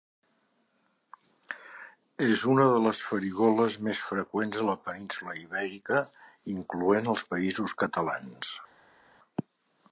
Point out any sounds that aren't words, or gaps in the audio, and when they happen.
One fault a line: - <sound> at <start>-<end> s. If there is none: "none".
none